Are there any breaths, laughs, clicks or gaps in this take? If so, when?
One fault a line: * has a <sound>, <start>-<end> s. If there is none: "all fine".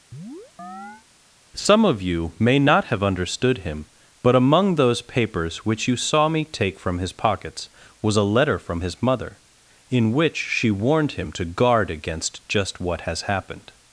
* has a chirp, 0.1-1.1 s